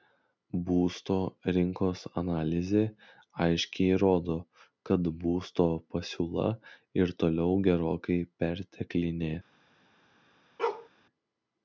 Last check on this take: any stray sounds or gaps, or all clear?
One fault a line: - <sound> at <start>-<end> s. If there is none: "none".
- bark at 10.6-10.9 s